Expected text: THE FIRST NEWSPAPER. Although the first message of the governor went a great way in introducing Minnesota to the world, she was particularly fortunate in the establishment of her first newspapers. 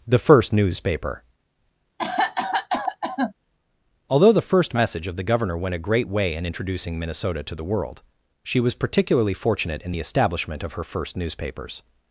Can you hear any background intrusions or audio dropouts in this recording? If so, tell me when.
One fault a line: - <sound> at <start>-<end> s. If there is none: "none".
- cough at 2.0-3.3 s